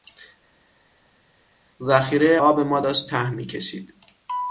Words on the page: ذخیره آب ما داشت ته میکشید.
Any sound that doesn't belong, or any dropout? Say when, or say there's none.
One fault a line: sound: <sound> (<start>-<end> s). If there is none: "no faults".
no faults